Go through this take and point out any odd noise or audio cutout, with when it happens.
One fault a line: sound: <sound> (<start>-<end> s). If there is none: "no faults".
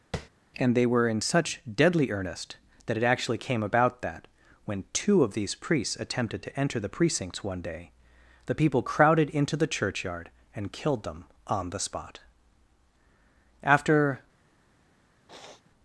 sound: tap (0.1-0.3 s)
sound: sniff (15.3-15.7 s)